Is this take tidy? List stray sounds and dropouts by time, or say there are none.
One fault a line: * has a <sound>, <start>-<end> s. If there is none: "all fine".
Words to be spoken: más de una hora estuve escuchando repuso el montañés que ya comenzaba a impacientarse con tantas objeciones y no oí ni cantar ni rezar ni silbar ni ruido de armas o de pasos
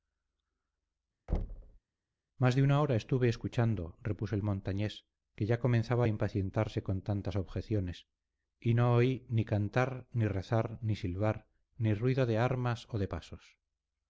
* has a thud, 1.3-1.8 s